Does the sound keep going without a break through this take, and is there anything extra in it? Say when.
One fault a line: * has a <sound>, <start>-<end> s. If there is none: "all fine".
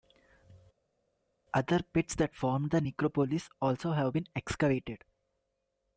all fine